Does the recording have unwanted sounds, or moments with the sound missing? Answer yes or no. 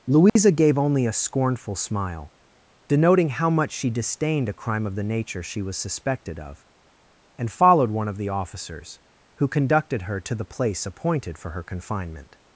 yes